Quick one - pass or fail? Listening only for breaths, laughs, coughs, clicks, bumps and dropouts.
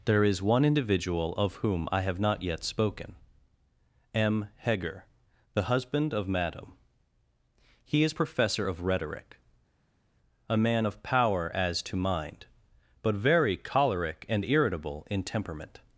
pass